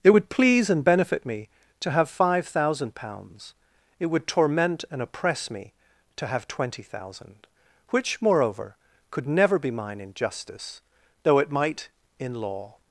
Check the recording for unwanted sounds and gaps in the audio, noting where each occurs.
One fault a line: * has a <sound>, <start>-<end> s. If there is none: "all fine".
all fine